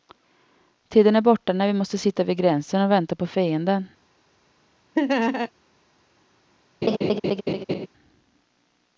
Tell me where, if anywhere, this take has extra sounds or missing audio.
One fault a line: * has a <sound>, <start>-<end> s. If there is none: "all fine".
* has a laugh, 5.0-5.5 s
* has a laugh, 6.8-7.9 s